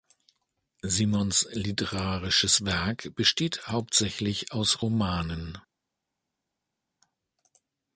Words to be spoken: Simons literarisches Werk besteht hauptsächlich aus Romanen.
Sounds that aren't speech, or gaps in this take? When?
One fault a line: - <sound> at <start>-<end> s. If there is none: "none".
none